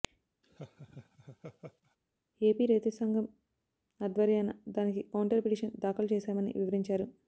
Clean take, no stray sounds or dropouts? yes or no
no